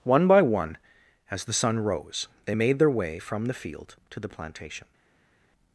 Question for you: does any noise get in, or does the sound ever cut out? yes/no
no